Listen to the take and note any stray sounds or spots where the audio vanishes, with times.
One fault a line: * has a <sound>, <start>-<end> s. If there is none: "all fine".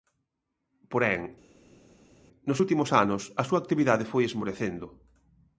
all fine